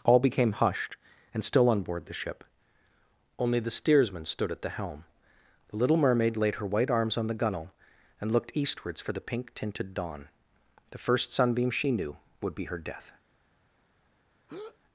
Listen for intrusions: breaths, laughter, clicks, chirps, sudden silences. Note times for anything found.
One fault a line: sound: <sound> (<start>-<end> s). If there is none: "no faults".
sound: breath (14.5-14.8 s)